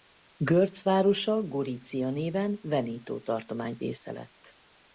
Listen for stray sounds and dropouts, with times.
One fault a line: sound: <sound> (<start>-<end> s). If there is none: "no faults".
sound: dropout (4.0-4.0 s)